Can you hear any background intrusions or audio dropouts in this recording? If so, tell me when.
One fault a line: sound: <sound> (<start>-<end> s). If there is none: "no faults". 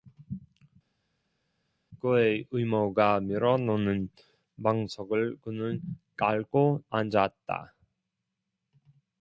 no faults